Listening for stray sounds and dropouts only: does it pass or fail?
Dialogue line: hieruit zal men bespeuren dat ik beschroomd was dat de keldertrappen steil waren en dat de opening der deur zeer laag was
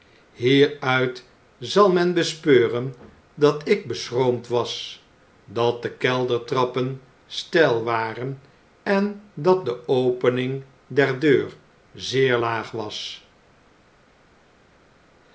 pass